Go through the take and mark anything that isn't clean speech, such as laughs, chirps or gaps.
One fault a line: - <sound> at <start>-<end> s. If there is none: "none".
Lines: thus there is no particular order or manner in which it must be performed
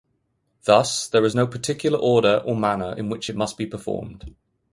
none